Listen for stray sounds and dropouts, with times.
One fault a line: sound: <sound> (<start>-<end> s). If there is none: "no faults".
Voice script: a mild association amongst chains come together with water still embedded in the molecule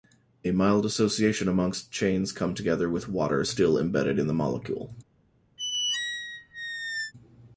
sound: squeak (5.6-7.1 s)